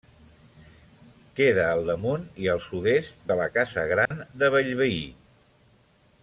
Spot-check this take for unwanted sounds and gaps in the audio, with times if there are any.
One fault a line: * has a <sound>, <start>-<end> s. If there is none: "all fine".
* has a dropout, 4.1-4.1 s